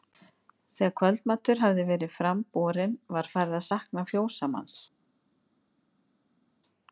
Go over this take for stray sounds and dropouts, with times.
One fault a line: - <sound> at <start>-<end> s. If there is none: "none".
none